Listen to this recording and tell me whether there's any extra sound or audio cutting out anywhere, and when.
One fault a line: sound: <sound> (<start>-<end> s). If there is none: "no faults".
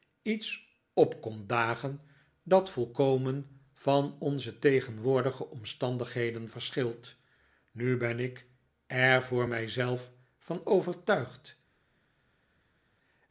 no faults